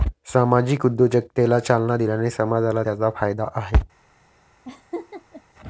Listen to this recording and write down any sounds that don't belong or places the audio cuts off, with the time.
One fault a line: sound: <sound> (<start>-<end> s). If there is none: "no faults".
sound: laugh (4.7-5.4 s)